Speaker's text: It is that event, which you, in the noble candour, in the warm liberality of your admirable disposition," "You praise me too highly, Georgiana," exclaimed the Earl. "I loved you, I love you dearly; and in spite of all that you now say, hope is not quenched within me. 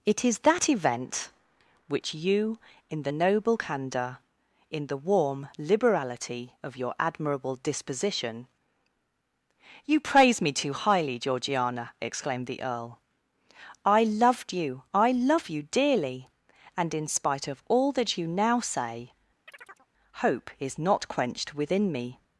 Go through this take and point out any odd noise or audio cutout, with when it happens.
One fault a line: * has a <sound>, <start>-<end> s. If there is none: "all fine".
* has a chirp, 19.5-19.9 s